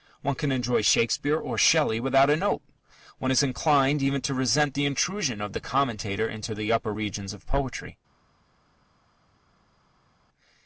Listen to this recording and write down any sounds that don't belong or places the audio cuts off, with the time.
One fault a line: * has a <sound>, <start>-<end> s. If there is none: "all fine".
all fine